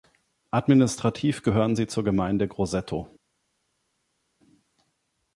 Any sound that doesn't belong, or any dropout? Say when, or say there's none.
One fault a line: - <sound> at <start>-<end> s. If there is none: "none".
none